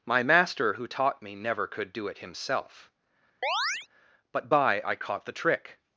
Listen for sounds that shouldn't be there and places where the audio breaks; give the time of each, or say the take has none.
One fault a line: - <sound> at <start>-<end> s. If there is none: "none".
- chirp at 3.4-3.9 s